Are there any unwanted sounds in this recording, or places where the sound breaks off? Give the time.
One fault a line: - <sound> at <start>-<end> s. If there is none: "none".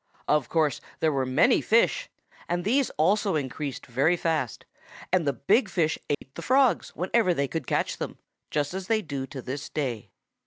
- dropout at 6.1-6.2 s